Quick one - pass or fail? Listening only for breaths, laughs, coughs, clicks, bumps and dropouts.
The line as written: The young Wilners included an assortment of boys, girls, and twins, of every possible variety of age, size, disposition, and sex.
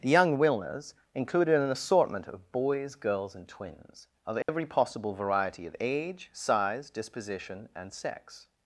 fail